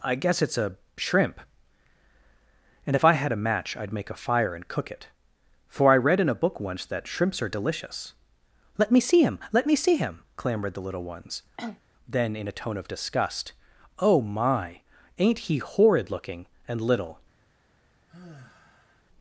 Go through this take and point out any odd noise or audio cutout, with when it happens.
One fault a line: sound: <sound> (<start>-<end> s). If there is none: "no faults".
sound: cough (11.6-11.8 s)
sound: sigh (18.1-19.0 s)